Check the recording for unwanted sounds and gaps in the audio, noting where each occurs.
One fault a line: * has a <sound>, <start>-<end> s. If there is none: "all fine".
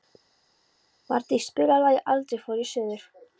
all fine